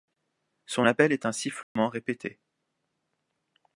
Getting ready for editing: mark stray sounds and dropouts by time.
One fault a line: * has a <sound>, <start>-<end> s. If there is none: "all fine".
* has a dropout, 1.6-1.8 s